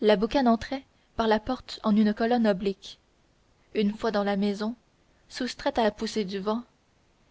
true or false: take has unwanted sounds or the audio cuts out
false